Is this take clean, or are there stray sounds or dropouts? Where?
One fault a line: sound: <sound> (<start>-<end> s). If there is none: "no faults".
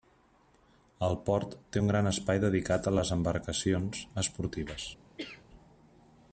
sound: cough (5.2-5.4 s)